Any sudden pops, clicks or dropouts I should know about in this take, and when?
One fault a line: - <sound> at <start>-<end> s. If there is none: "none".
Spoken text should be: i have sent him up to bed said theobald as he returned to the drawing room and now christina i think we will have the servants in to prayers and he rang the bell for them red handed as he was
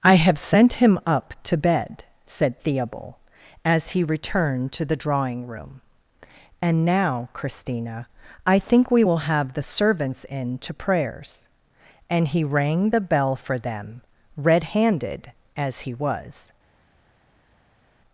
none